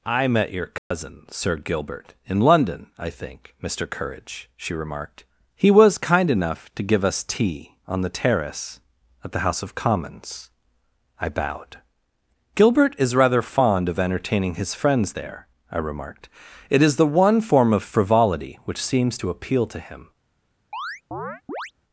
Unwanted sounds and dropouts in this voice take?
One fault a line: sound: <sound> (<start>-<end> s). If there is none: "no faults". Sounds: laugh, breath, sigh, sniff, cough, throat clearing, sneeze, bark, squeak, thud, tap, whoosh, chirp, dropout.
sound: dropout (0.8-0.9 s)
sound: chirp (20.7-21.7 s)